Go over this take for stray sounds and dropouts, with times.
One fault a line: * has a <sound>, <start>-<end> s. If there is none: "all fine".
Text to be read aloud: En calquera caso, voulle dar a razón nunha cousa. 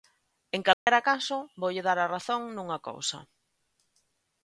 * has a dropout, 0.7-0.9 s